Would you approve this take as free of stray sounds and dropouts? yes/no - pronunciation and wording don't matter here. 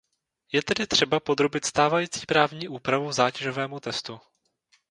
yes